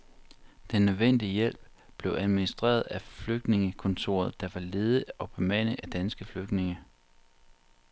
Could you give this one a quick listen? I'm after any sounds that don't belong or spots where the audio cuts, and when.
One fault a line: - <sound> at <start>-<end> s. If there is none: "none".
none